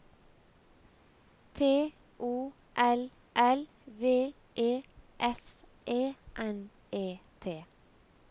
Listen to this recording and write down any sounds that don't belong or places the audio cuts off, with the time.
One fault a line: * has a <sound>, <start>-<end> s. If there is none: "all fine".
all fine